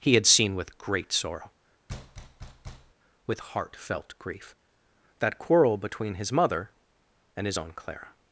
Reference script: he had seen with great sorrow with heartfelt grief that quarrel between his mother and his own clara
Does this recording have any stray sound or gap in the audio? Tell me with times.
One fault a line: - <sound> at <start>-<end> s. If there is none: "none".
- thud at 1.9-2.9 s